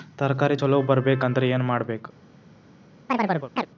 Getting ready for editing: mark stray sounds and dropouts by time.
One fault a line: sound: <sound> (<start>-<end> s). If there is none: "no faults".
sound: chirp (3.1-3.7 s)